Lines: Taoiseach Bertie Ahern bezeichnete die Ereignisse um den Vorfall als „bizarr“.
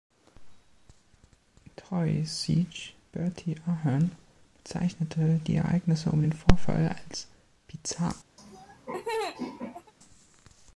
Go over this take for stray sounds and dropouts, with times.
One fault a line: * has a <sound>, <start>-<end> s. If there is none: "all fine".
* has a laugh, 8.4-9.9 s